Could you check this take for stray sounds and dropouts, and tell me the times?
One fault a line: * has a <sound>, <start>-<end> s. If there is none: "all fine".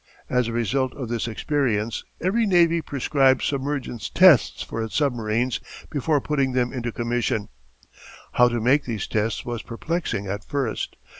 all fine